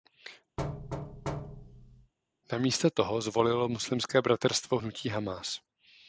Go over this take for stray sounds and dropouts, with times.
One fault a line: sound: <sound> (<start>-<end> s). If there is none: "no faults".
sound: thud (0.6-2.1 s)